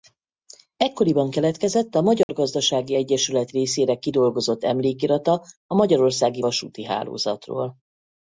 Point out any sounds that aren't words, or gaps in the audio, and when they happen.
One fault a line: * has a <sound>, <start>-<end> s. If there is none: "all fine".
* has a dropout, 2.2-2.3 s